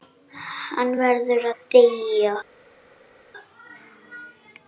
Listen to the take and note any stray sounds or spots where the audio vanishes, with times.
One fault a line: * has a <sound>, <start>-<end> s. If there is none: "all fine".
all fine